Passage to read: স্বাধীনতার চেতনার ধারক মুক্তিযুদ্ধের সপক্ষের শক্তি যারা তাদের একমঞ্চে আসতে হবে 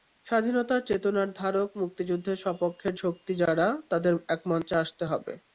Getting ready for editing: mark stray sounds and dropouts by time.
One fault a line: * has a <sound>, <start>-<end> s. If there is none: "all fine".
all fine